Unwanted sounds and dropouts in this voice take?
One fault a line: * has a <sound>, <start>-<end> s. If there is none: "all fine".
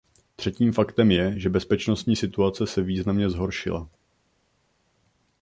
all fine